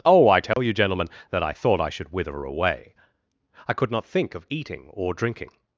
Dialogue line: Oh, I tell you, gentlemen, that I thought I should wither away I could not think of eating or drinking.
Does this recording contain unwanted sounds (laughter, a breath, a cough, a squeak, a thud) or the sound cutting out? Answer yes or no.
yes